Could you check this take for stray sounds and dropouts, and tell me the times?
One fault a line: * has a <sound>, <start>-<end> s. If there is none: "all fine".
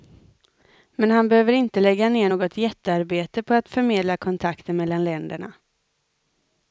all fine